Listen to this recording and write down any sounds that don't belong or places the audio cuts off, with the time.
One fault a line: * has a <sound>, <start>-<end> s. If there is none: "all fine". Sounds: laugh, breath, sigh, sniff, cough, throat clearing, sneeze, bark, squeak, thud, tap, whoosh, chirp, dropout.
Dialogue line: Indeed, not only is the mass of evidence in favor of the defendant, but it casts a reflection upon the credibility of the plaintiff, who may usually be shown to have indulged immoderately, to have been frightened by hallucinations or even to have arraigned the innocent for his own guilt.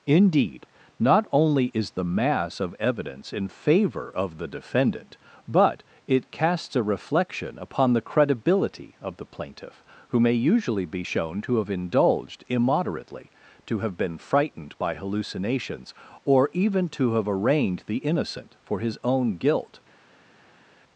all fine